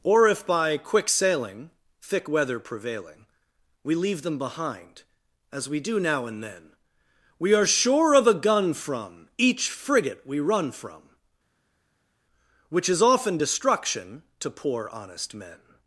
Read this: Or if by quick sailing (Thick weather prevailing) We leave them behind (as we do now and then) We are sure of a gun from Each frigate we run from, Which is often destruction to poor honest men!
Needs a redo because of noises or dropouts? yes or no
no